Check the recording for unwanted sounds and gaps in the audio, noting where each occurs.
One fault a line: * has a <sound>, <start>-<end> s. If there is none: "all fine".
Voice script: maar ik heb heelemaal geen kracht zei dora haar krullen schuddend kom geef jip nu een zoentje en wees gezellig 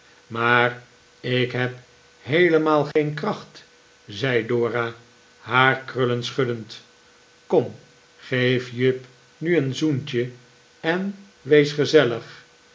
* has a dropout, 2.9-3.0 s